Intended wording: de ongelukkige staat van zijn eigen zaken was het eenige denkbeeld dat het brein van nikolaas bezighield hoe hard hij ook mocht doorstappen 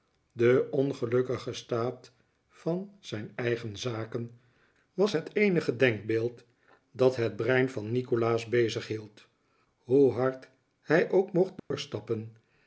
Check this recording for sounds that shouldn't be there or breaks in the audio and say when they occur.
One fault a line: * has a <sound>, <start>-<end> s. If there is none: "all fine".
* has a dropout, 11.6-11.7 s